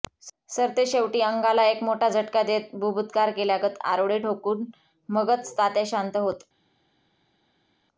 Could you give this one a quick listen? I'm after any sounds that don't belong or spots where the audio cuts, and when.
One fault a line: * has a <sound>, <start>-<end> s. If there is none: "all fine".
all fine